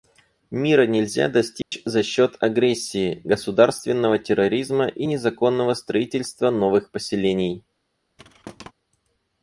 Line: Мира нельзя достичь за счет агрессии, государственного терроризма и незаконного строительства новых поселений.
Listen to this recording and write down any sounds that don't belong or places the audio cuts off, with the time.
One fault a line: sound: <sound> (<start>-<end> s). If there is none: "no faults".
sound: dropout (1.6-1.7 s)
sound: thud (8.2-8.7 s)